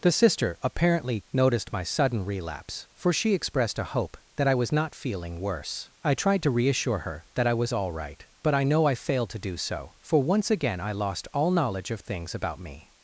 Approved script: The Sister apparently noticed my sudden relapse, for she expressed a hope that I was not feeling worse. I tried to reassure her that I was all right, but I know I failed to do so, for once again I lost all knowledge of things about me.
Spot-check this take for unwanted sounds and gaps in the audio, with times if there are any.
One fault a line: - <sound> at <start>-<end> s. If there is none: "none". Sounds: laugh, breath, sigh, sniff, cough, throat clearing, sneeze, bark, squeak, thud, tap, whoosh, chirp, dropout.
none